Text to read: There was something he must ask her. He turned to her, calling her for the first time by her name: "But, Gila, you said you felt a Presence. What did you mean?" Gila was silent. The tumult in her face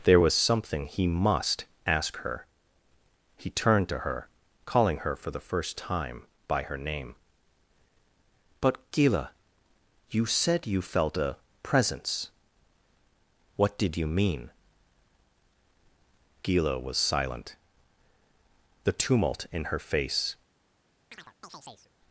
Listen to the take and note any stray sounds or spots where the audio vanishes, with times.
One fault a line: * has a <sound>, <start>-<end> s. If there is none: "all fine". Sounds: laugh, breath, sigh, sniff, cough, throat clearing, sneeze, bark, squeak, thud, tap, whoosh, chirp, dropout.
* has a chirp, 21.1-21.9 s